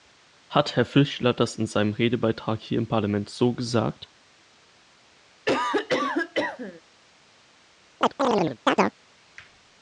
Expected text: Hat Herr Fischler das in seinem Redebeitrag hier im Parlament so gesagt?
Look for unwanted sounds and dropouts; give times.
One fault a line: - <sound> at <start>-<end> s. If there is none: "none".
- cough at 5.4-6.8 s
- chirp at 8.0-9.0 s